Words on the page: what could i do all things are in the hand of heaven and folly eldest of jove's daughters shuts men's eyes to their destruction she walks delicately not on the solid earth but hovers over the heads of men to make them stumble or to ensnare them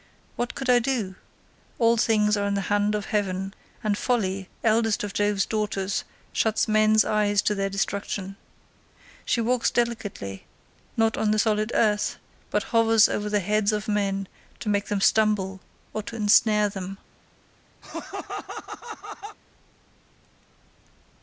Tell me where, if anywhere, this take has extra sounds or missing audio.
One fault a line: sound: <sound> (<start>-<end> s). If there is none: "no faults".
sound: laugh (17.8-19.4 s)